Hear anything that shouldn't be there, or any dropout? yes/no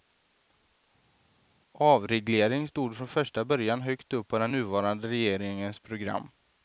no